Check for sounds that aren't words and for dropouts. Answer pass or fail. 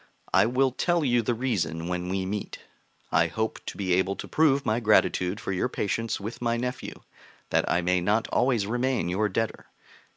pass